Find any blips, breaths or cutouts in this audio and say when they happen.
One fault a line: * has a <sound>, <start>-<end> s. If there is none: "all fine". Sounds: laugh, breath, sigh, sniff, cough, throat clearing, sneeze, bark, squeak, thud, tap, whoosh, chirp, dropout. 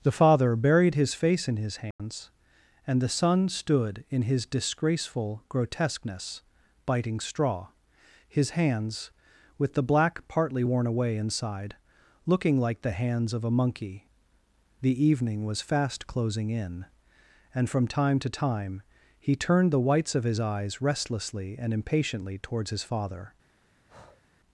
* has a dropout, 1.9-2.0 s
* has a breath, 23.9-24.2 s